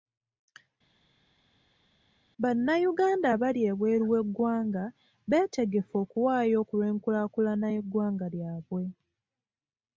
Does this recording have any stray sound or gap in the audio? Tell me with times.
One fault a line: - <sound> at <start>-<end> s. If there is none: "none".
none